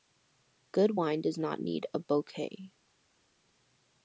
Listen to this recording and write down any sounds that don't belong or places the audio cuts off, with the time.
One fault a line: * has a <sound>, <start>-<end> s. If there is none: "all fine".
all fine